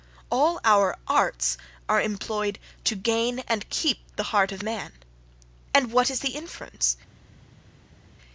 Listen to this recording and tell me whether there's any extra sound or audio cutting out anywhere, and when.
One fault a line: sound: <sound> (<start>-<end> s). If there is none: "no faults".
no faults